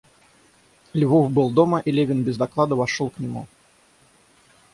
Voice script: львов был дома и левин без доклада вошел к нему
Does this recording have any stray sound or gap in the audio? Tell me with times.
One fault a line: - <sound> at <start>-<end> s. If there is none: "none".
none